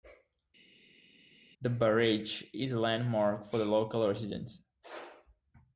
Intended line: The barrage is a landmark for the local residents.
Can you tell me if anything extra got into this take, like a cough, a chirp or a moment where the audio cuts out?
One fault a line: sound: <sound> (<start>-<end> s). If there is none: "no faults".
no faults